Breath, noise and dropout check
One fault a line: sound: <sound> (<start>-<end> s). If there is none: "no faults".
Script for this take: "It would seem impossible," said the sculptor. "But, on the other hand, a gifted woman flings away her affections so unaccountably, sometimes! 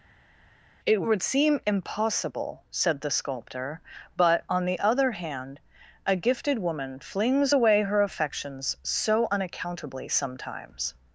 no faults